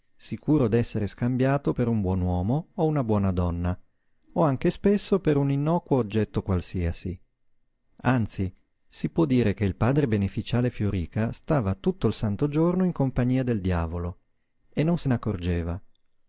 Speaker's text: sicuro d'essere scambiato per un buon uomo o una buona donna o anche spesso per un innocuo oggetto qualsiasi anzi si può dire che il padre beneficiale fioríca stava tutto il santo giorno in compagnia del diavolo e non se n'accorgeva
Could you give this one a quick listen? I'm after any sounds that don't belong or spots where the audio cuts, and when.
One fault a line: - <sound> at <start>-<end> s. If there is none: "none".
none